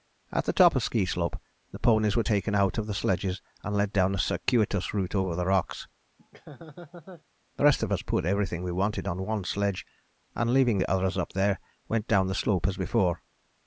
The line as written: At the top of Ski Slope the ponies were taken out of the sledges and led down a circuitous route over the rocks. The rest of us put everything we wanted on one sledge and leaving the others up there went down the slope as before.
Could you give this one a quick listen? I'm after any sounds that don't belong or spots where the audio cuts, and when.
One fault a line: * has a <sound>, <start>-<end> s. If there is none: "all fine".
* has a laugh, 6.2-7.2 s